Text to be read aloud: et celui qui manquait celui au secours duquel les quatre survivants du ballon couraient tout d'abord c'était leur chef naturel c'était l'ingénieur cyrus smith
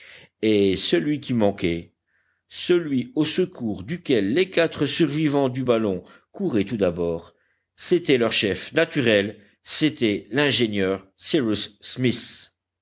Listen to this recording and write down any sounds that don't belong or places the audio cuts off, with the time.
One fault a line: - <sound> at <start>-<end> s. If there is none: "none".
none